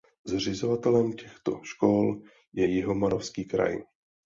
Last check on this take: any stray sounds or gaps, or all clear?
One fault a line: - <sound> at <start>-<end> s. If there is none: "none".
none